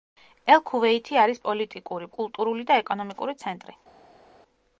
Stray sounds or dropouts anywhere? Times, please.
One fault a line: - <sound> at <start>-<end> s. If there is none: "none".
none